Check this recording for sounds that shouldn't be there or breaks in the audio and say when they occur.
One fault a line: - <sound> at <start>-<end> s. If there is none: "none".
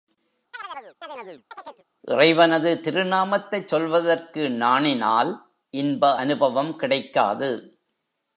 - chirp at 0.5-1.8 s